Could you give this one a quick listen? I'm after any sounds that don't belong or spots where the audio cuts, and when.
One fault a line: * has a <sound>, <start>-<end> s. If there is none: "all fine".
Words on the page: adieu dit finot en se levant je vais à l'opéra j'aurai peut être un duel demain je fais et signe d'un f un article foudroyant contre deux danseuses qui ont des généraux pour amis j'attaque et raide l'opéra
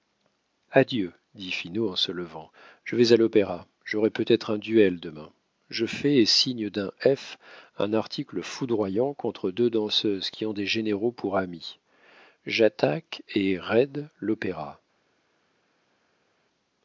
all fine